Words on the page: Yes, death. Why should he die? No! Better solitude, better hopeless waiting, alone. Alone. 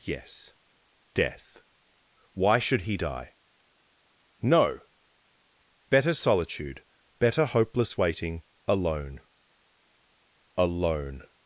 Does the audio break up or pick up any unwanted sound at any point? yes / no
no